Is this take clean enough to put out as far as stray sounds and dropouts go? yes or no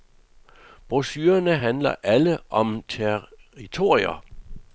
yes